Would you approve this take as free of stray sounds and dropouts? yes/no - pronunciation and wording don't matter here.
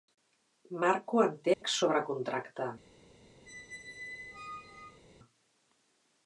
no